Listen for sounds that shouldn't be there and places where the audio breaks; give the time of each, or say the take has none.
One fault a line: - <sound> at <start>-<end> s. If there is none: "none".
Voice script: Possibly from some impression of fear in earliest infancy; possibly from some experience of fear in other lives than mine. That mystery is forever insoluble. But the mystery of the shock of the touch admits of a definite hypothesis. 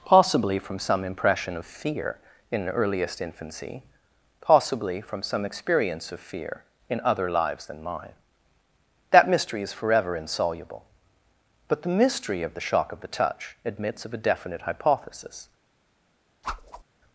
- whoosh at 16.4-16.8 s